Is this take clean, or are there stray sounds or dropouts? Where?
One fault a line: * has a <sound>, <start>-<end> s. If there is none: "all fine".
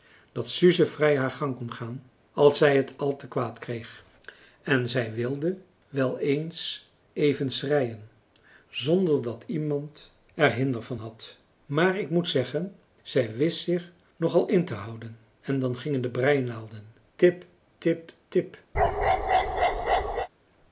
* has a bark, 18.7-20.3 s